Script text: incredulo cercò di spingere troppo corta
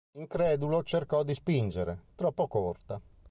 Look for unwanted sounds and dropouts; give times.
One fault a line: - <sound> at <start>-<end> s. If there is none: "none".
none